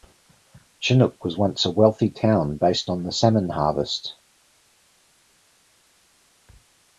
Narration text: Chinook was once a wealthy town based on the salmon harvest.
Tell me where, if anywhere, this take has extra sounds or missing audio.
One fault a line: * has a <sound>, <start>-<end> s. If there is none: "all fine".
all fine